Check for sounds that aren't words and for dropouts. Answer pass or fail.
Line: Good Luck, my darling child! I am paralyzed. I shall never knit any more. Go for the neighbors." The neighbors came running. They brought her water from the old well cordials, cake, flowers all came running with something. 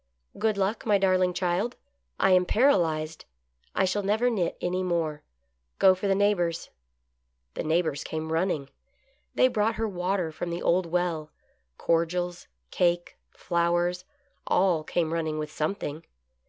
pass